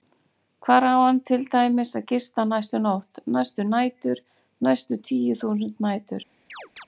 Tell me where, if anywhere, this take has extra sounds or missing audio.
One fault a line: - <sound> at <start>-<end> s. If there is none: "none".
- chirp at 6.5-6.9 s